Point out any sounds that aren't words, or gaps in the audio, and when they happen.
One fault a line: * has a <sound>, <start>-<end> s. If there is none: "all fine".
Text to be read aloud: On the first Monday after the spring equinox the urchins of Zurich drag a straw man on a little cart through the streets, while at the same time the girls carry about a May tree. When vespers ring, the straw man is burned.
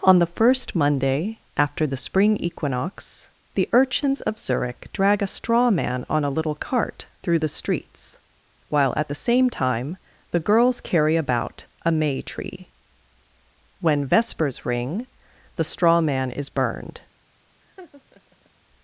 * has a laugh, 17.6-18.5 s